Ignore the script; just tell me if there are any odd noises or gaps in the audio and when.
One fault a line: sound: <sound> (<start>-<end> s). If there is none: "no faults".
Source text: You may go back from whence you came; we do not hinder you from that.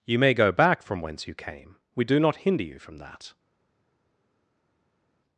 no faults